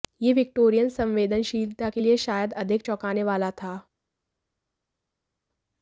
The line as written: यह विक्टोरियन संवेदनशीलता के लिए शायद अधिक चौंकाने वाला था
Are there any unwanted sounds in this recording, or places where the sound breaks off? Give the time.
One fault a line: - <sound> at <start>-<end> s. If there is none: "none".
none